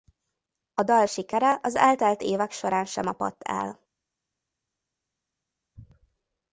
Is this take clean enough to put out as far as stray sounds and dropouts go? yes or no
yes